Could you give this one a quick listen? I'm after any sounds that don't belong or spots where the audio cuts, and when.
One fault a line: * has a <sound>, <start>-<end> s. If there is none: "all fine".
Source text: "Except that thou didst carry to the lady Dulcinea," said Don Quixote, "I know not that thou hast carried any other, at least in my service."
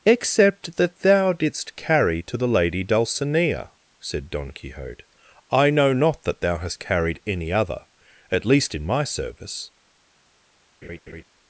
* has a laugh, 10.8-11.2 s